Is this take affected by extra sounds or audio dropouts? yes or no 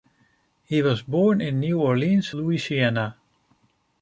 no